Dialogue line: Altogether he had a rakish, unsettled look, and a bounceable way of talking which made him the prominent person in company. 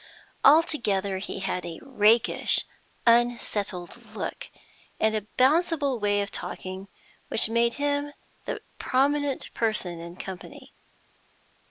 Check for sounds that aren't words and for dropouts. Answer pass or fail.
pass